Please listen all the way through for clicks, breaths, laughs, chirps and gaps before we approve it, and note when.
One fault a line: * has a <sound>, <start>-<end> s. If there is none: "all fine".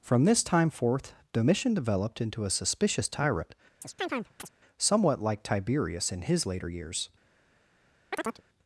* has a chirp, 3.8-4.5 s
* has a chirp, 8.1-8.4 s